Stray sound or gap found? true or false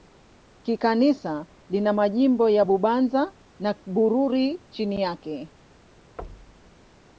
true